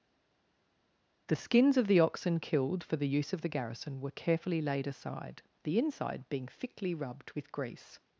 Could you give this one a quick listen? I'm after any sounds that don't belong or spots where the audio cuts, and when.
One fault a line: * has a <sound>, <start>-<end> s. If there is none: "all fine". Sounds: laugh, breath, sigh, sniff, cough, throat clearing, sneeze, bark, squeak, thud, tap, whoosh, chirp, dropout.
all fine